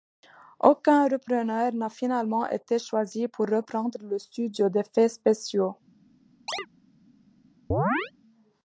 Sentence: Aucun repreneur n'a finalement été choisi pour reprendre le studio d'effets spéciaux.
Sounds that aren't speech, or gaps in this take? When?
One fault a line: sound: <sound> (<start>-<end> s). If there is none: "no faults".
sound: chirp (6.5-6.7 s)
sound: chirp (7.7-8.1 s)